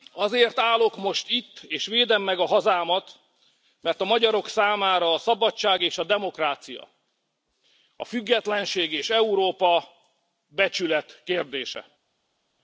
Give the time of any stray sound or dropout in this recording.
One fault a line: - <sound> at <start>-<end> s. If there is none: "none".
none